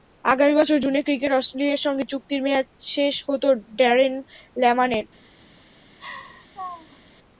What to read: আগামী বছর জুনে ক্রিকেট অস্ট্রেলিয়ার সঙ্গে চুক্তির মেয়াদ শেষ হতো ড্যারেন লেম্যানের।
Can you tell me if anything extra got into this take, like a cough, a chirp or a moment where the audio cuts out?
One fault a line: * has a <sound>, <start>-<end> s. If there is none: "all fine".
* has a laugh, 6.0-7.0 s